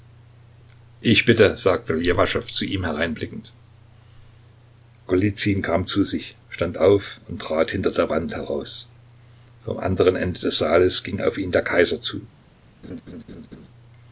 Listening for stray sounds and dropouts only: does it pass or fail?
fail